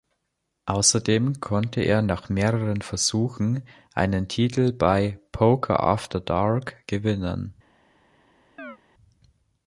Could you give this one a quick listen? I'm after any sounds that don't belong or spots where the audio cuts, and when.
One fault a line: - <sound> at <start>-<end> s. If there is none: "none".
- chirp at 8.6-8.8 s